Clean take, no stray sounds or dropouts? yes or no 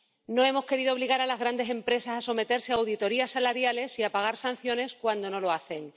yes